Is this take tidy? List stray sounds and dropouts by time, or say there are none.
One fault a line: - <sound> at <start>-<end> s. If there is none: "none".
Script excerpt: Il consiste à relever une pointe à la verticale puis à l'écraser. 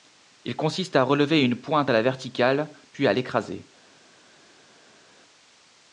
none